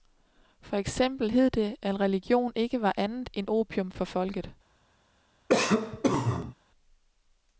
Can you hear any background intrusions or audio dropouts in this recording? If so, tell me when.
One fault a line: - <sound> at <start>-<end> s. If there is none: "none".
- cough at 5.5-6.5 s